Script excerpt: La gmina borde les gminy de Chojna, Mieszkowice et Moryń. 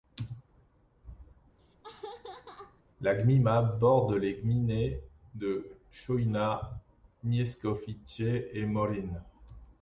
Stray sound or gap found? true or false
true